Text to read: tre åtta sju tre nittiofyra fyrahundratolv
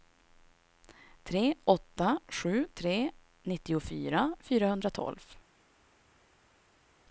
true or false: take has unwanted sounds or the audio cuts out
false